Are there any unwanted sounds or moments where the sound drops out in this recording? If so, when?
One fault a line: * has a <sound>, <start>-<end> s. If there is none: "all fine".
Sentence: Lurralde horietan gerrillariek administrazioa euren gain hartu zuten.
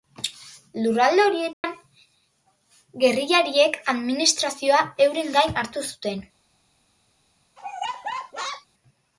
* has a dropout, 1.5-1.6 s
* has a laugh, 7.6-8.7 s